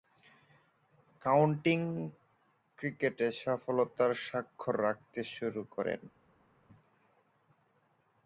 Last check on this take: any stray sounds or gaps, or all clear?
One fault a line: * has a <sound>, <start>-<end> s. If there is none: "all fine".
all fine